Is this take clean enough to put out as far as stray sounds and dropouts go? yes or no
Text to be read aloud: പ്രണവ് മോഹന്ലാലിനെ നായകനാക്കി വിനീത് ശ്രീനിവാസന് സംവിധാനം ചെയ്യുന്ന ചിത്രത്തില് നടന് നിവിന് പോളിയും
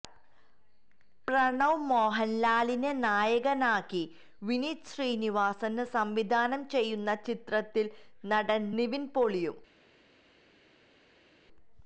yes